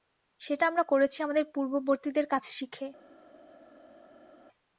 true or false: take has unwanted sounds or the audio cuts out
false